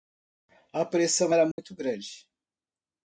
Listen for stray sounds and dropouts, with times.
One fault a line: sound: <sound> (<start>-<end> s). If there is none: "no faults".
sound: dropout (1.5-1.6 s)